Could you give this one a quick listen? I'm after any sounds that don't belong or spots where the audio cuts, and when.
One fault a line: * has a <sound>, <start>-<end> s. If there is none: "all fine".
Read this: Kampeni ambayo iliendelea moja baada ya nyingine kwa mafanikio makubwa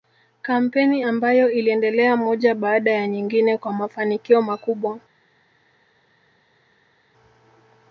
all fine